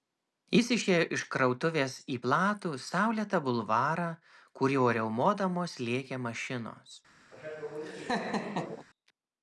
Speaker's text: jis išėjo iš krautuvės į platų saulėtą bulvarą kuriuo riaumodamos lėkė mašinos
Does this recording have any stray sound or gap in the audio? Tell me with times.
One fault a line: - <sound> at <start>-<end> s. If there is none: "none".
- laugh at 7.3-8.9 s